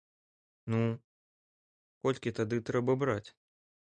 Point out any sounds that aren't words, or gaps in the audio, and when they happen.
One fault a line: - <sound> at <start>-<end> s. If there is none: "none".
none